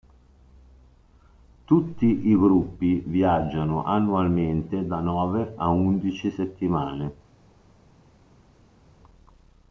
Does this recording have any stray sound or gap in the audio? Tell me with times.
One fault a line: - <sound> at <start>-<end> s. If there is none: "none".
none